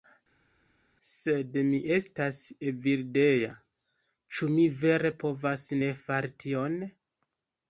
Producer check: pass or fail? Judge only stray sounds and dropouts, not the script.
pass